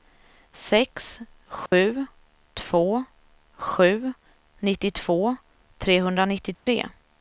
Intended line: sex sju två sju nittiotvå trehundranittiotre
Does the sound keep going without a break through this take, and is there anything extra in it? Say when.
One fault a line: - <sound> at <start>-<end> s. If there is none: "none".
- dropout at 1.7-1.7 s
- dropout at 6.5-6.7 s